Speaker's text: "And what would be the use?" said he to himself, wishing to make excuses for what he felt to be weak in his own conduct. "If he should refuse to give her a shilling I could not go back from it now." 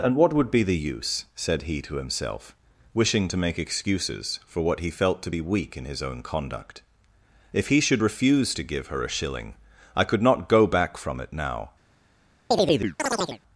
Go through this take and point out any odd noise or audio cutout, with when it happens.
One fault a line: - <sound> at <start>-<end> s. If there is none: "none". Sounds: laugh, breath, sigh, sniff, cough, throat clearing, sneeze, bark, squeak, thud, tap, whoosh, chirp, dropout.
- chirp at 12.5-13.4 s